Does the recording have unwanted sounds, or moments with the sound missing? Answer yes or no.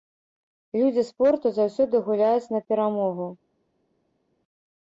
no